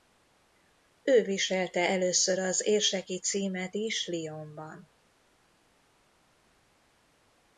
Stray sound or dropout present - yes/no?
no